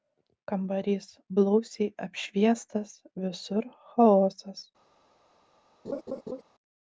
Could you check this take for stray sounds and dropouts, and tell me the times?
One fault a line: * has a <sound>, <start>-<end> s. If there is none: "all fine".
* has a laugh, 5.8-6.4 s